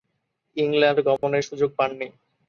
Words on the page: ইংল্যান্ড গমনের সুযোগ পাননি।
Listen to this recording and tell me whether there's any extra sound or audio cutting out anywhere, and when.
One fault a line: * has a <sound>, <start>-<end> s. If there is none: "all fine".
* has a dropout, 1.2-1.2 s